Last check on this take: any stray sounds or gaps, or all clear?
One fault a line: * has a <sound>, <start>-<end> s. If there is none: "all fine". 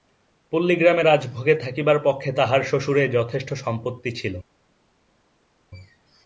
all fine